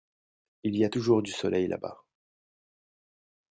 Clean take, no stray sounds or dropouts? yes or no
yes